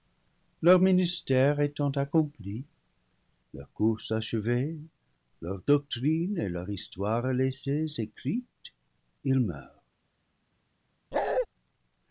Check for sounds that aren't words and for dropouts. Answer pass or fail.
fail